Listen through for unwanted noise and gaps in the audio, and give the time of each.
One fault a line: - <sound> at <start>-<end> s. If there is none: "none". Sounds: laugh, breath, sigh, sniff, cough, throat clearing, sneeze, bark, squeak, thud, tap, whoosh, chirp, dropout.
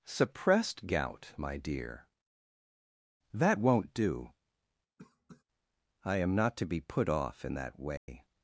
- cough at 5.0-5.4 s
- dropout at 8.0-8.1 s